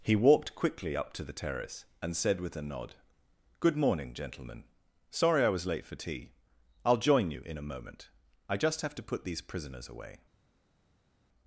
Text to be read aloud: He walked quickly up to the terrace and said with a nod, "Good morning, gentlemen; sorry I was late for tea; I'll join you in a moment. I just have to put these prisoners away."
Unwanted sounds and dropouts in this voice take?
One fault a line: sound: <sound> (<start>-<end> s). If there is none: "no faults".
no faults